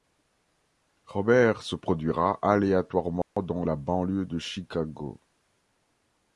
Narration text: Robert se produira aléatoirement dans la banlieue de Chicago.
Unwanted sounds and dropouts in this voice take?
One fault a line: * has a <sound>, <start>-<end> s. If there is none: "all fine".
* has a dropout, 3.2-3.4 s